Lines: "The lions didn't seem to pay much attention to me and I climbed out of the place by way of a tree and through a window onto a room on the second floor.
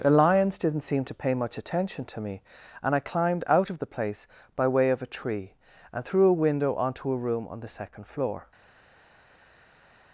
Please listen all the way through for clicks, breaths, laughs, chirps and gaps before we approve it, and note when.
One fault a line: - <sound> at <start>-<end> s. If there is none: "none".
none